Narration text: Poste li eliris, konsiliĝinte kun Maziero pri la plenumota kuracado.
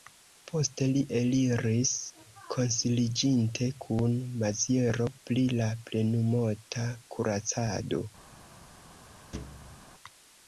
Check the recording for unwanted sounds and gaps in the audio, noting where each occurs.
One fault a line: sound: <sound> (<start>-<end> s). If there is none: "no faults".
sound: thud (9.3-9.9 s)